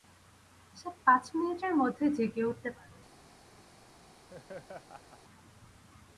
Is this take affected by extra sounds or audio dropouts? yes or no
yes